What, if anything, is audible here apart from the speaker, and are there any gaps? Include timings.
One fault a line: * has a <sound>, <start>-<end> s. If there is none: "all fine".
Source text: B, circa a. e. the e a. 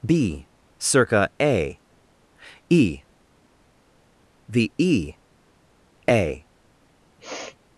* has a sniff, 7.2-7.6 s